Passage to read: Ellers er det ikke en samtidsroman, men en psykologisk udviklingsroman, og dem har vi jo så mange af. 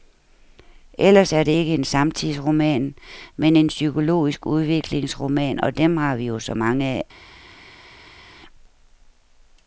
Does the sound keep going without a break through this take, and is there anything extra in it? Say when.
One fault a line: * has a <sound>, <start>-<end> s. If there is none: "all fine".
all fine